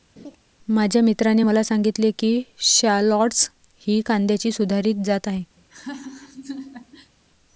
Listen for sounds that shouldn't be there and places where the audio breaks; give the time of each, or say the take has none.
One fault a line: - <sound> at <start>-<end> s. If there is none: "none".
- laugh at 0.2-0.4 s
- laugh at 5.6-7.1 s